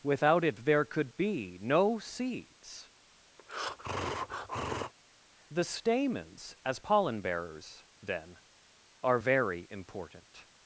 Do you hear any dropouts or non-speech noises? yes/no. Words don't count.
yes